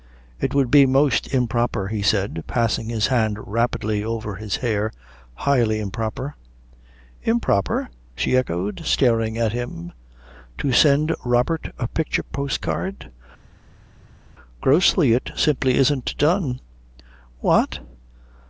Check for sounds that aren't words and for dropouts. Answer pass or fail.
pass